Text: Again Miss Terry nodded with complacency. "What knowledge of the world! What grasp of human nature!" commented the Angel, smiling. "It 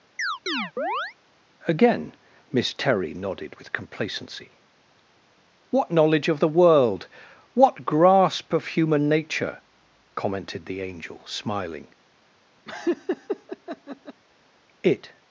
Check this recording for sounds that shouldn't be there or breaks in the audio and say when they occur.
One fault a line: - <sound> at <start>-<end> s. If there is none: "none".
- chirp at 0.2-1.1 s
- laugh at 12.7-14.2 s